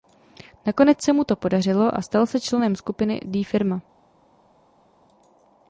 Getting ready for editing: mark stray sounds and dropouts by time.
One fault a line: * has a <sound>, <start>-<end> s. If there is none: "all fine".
all fine